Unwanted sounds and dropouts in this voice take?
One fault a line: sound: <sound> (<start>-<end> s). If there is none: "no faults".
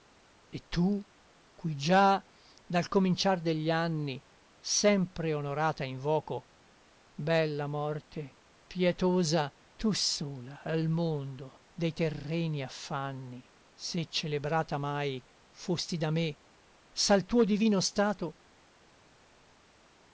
no faults